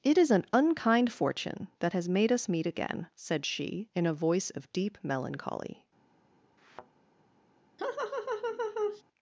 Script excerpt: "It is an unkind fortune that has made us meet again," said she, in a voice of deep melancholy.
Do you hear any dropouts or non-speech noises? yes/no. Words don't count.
yes